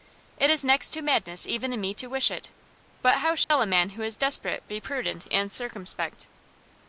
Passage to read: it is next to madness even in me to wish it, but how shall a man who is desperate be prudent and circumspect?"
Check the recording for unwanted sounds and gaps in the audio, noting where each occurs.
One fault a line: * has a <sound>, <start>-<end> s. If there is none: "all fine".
* has a dropout, 3.4-3.5 s